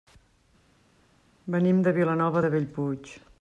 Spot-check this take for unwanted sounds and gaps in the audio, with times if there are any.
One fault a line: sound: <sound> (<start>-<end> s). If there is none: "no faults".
no faults